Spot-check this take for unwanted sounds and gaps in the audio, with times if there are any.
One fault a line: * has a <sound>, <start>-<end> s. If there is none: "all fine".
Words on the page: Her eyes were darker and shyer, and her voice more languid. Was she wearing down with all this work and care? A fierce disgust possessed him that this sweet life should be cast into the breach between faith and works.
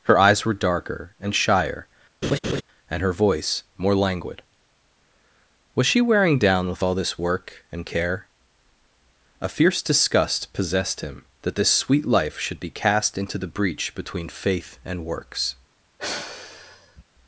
* has a laugh, 2.2-2.6 s
* has a sigh, 16.0-17.0 s